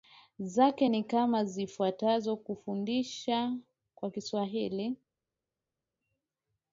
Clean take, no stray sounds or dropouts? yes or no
yes